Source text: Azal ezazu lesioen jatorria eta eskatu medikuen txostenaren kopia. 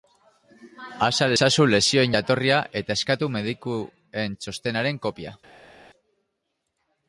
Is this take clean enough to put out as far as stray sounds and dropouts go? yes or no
yes